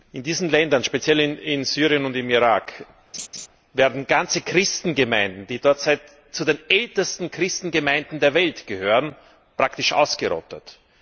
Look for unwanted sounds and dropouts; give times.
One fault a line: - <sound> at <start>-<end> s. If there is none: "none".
- laugh at 3.1-3.5 s